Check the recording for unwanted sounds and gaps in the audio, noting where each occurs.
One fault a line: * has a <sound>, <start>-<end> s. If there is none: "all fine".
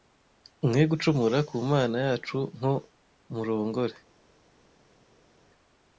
all fine